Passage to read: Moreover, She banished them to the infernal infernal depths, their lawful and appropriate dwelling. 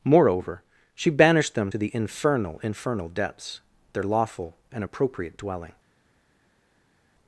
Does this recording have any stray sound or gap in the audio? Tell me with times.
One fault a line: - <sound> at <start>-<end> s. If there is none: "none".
none